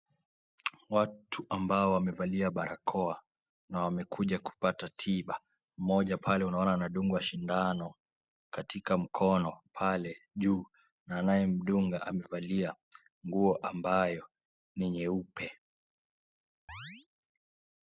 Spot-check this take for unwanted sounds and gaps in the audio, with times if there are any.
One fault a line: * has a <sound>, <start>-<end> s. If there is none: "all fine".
* has a chirp, 16.7-17.1 s